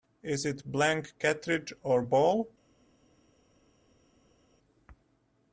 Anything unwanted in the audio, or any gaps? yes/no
no